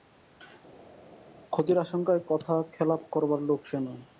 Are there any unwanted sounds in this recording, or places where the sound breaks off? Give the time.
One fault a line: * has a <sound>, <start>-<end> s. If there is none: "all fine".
all fine